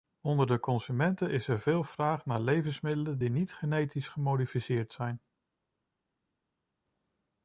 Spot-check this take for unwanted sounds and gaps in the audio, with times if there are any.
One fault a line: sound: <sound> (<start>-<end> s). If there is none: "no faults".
no faults